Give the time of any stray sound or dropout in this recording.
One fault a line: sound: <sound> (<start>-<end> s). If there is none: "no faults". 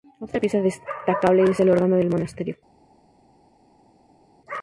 no faults